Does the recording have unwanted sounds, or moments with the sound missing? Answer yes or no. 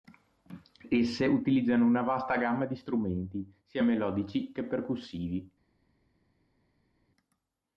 no